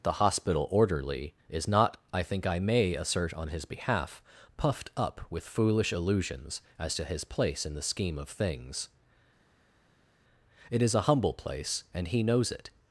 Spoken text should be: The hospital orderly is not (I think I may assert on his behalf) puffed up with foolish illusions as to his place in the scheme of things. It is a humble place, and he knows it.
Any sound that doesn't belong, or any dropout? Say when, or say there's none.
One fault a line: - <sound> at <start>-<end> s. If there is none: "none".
none